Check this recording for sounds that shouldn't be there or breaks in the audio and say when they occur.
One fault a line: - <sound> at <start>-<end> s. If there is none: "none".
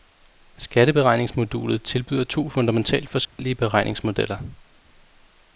- dropout at 3.3-3.4 s